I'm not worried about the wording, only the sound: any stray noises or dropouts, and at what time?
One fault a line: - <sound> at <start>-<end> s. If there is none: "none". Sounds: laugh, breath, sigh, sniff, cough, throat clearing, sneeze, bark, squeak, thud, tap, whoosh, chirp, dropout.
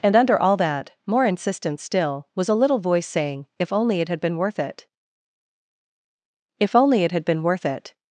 none